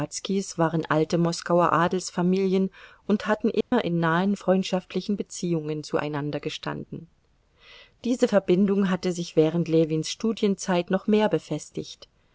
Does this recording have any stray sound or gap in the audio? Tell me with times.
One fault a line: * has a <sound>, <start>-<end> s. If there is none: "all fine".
* has a dropout, 3.6-3.7 s